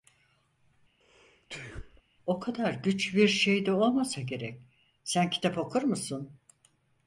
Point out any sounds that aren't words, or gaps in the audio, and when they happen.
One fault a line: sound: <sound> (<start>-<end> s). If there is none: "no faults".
sound: sneeze (1.0-2.0 s)